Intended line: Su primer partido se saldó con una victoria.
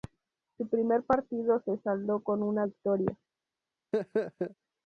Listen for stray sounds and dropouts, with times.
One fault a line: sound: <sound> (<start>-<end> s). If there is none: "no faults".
sound: laugh (3.9-4.6 s)